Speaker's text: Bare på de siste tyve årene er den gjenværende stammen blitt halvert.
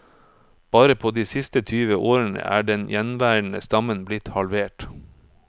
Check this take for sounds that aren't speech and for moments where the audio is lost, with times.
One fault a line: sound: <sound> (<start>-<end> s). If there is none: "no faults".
no faults